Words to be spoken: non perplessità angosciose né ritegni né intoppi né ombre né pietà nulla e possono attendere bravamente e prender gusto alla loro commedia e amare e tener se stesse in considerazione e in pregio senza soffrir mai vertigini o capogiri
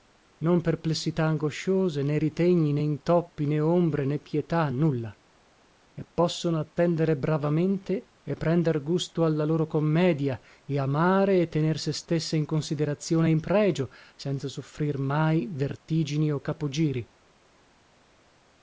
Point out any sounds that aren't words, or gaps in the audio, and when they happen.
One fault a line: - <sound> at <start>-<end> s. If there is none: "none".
none